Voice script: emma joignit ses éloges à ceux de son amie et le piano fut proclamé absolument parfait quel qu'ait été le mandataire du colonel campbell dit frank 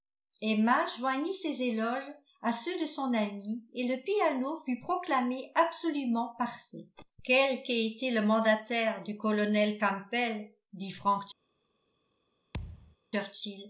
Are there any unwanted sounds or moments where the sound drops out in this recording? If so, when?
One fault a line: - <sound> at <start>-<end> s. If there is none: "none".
- thud at 12.5-13.0 s